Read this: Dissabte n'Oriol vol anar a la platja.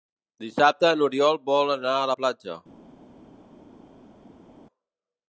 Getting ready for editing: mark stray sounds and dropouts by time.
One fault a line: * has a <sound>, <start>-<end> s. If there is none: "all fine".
all fine